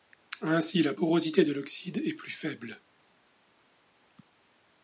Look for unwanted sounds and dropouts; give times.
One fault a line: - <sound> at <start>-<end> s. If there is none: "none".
none